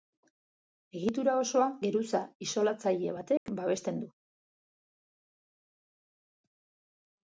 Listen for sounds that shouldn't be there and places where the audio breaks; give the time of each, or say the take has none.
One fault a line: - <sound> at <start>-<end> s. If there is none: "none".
- dropout at 3.4-3.5 s